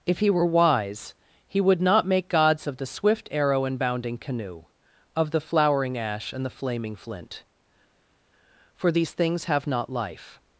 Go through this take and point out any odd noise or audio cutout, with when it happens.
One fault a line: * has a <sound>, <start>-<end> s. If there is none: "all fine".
all fine